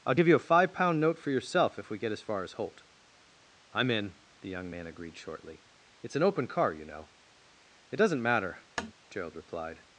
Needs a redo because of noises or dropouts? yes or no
yes